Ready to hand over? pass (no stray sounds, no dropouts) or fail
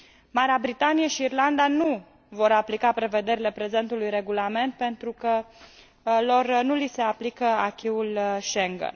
pass